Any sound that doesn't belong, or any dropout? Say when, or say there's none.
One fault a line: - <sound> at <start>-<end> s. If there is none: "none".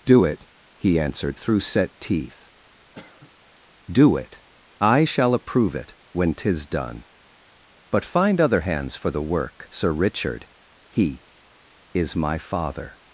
- cough at 2.9-3.3 s